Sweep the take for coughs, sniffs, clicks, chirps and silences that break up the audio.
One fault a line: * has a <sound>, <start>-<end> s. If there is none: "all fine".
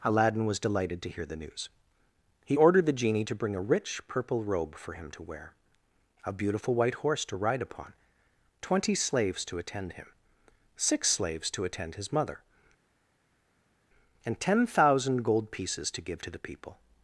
all fine